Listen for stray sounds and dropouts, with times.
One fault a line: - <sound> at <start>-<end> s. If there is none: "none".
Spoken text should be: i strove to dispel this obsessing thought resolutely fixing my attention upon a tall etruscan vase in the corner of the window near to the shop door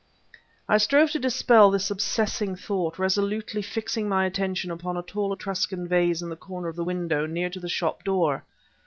none